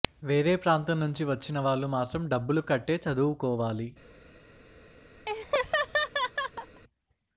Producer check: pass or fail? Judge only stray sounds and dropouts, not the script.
fail